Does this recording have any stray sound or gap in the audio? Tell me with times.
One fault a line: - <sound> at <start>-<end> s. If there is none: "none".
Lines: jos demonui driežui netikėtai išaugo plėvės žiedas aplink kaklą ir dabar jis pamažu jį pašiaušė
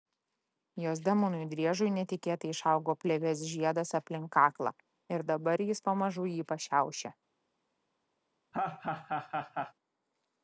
- laugh at 8.5-9.7 s